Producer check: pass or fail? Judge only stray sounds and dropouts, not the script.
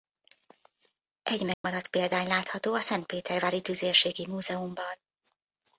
fail